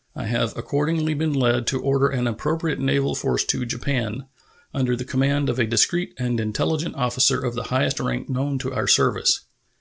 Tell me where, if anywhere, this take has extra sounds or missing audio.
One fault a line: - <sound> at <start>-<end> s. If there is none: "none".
none